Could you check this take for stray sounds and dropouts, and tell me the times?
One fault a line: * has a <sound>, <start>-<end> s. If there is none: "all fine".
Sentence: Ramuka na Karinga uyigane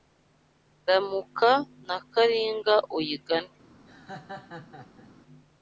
* has a laugh, 3.9-5.1 s